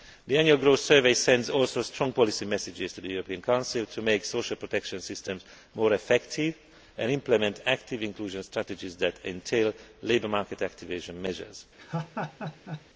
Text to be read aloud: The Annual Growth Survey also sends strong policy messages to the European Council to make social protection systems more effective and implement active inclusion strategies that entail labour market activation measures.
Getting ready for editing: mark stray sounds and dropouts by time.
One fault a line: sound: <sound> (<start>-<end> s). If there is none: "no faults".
sound: laugh (11.8-12.9 s)